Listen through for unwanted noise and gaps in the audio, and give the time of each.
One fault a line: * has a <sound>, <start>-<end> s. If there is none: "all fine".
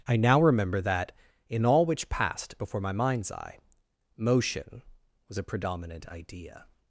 all fine